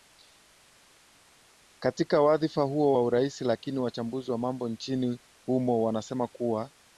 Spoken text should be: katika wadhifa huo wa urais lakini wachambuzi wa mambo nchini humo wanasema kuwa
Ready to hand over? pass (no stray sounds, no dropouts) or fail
pass